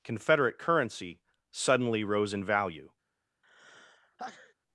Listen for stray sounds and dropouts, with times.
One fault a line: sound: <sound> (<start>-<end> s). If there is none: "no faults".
sound: sneeze (3.4-4.5 s)